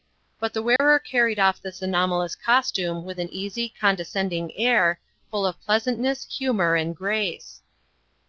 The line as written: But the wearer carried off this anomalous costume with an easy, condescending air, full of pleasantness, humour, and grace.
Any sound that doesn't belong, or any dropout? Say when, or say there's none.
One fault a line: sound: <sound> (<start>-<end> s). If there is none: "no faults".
sound: dropout (0.8-0.8 s)